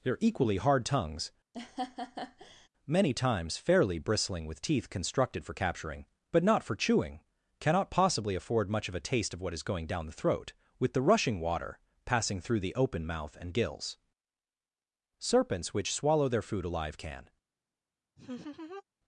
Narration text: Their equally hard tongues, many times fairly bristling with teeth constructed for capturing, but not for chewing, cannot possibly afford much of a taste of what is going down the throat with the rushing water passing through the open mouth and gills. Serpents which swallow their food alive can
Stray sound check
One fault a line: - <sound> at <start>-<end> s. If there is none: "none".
- laugh at 1.5-2.7 s
- laugh at 18.2-18.8 s